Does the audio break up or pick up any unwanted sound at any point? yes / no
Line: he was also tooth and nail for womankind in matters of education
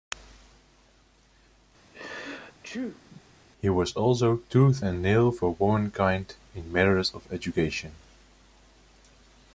yes